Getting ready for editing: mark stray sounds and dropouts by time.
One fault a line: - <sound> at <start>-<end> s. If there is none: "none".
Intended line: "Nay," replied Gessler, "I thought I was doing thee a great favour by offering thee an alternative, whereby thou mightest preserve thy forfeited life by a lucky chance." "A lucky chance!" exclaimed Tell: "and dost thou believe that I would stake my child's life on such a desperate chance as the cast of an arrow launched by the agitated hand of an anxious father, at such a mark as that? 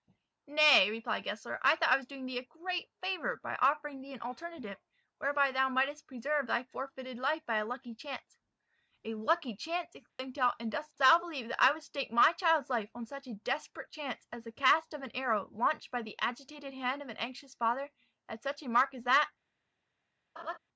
- dropout at 10.1-10.2 s
- laugh at 20.4-20.6 s